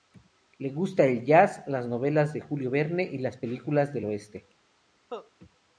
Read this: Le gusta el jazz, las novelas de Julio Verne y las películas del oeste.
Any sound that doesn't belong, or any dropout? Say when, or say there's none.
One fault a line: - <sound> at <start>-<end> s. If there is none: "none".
- cough at 5.1-5.3 s